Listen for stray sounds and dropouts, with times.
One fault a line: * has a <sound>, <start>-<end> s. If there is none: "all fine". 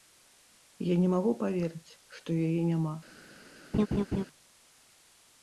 * has a laugh, 3.7-4.2 s